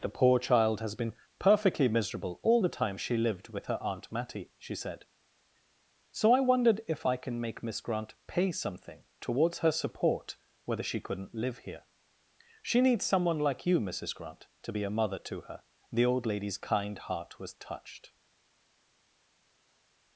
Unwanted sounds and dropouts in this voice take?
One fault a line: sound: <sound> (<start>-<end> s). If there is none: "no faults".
no faults